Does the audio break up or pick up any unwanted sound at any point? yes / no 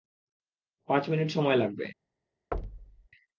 yes